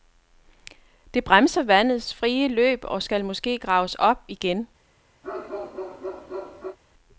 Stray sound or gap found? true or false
true